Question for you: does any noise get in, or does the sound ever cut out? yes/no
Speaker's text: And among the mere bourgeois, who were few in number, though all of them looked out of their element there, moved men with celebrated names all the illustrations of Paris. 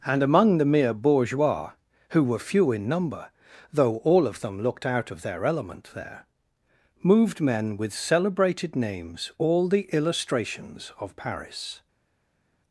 no